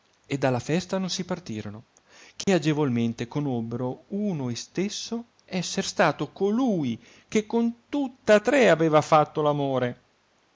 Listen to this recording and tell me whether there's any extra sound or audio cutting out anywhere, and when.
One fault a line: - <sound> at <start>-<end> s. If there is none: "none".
- dropout at 2.4-2.5 s